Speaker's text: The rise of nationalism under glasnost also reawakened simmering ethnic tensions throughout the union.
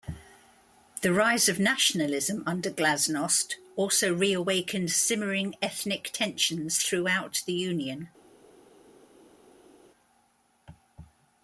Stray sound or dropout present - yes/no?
no